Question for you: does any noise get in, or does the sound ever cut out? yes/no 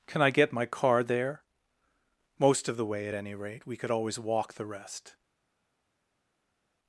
no